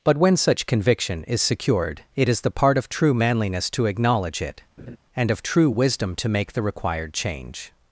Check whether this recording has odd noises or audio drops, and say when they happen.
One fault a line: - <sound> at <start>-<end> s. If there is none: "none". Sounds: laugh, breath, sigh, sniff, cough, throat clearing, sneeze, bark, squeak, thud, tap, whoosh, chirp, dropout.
- laugh at 4.8-5.0 s